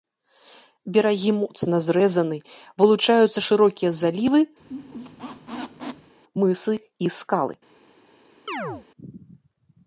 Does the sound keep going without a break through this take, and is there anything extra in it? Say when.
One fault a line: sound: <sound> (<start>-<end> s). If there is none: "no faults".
sound: squeak (4.6-6.1 s)
sound: chirp (8.5-8.9 s)